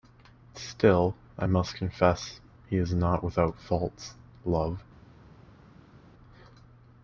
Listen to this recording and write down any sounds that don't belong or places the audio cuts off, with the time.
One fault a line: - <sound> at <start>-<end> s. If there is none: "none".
none